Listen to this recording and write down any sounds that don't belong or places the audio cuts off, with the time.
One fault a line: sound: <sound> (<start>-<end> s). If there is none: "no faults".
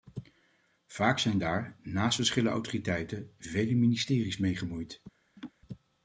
sound: laugh (5.4-5.5 s)